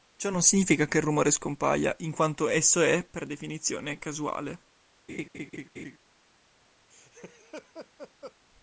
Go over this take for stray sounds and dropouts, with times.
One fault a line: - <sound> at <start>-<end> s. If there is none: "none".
- laugh at 5.1-6.0 s
- laugh at 6.9-8.4 s